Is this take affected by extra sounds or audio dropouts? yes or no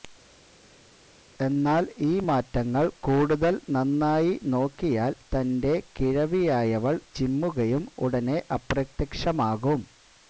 no